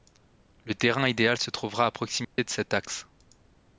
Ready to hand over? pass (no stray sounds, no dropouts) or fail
fail